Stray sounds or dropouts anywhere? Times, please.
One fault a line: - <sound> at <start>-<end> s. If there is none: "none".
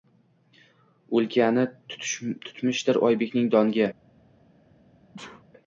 - sneeze at 5.1-5.4 s